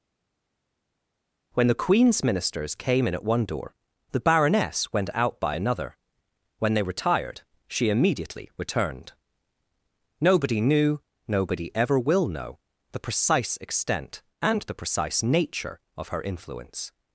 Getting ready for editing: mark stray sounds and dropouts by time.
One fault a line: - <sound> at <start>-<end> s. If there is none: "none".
none